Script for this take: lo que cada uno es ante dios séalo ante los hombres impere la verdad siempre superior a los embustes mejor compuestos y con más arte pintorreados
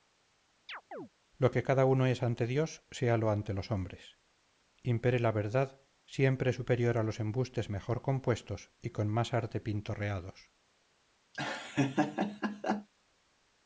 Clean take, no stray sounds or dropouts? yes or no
no